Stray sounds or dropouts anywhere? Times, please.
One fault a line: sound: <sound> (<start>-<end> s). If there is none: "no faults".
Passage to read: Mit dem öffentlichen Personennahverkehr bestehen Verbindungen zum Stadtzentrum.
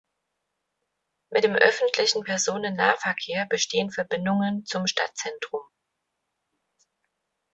no faults